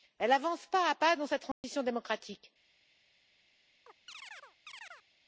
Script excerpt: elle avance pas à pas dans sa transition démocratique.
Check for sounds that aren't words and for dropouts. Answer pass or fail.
fail